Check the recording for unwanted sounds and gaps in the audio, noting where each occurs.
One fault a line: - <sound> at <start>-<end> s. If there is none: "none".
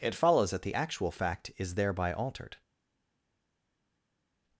none